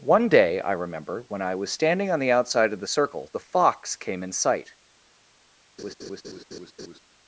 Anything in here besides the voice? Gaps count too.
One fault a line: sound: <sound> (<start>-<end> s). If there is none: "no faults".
sound: laugh (5.8-7.0 s)